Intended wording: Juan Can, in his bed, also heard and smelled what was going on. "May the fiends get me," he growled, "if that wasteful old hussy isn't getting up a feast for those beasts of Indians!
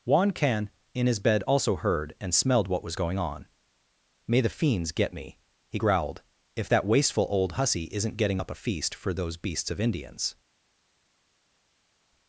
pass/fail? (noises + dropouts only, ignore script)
pass